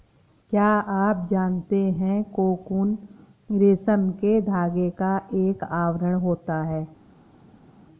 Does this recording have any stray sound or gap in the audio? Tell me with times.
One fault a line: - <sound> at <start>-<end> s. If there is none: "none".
none